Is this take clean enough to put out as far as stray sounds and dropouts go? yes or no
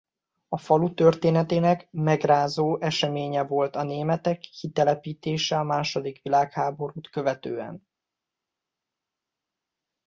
yes